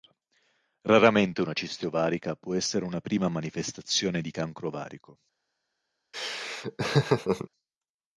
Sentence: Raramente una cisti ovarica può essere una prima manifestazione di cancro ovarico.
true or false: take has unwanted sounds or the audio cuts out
true